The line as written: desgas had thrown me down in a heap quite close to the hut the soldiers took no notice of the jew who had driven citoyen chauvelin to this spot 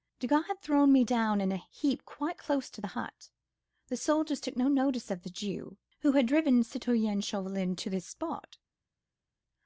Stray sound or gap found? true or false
false